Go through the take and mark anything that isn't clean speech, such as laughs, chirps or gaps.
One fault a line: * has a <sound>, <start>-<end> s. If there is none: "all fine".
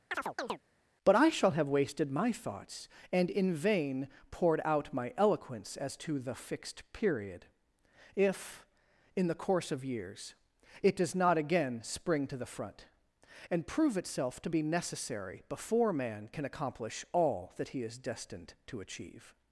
* has a chirp, 0.1-0.6 s